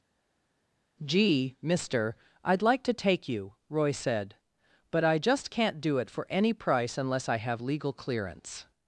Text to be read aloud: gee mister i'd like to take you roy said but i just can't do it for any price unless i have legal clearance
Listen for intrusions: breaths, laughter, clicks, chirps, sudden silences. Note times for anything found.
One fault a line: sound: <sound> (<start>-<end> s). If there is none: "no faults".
no faults